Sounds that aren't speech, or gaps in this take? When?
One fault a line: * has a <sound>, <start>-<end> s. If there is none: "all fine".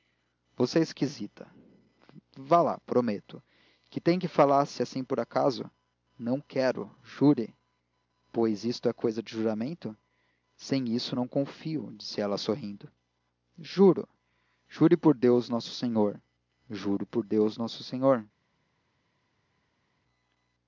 all fine